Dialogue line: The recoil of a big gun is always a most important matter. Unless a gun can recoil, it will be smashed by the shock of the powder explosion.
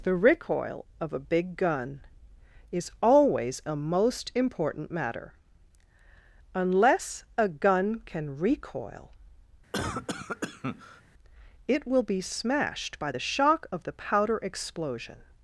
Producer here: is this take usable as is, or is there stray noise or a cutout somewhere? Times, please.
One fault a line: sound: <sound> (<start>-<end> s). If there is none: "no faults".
sound: cough (9.7-11.0 s)